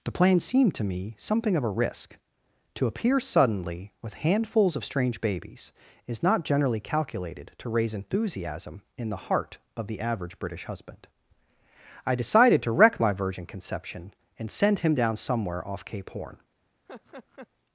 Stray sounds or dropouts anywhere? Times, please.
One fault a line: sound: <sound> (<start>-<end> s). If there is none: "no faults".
sound: laugh (16.9-17.5 s)